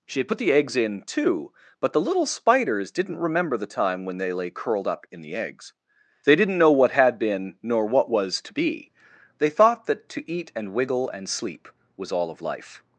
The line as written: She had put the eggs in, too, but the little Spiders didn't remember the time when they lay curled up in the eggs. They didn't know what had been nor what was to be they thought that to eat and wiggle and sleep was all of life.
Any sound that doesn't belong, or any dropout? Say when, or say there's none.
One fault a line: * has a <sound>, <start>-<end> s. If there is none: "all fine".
all fine